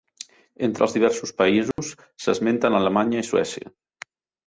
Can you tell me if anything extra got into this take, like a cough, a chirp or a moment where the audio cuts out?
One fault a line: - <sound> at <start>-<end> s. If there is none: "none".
- dropout at 1.7-1.8 s